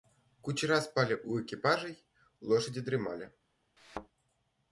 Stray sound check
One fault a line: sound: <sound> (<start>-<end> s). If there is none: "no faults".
sound: thud (3.8-4.1 s)